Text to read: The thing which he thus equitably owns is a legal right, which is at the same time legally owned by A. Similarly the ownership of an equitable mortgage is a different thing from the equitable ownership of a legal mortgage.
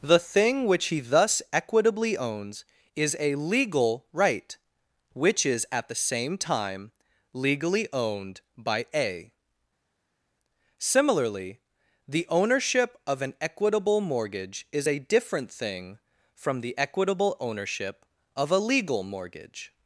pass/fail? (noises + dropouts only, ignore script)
pass